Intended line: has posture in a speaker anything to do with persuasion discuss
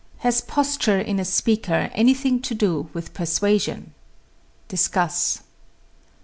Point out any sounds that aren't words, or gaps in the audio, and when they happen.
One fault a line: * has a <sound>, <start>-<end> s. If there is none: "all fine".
all fine